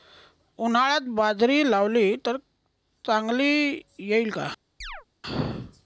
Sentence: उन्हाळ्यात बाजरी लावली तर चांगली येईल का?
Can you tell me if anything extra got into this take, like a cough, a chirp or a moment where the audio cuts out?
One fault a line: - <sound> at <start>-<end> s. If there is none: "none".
- chirp at 4.8-5.1 s